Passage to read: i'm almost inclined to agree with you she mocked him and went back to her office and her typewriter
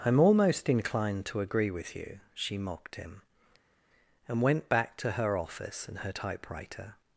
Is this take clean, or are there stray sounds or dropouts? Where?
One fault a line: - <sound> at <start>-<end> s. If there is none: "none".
none